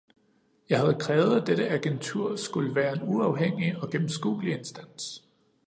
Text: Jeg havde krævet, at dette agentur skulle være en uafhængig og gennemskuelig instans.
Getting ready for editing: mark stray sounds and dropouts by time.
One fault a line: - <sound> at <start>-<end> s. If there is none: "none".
none